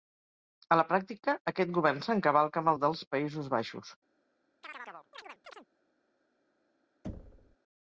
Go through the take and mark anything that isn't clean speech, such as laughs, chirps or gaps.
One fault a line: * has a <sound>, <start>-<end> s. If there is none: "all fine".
* has a chirp, 4.6-5.7 s
* has a thud, 7.0-7.6 s